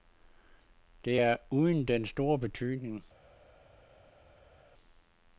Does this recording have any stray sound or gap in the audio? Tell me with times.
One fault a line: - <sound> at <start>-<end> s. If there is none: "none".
none